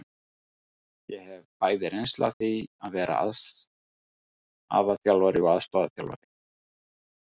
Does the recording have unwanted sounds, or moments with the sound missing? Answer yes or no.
no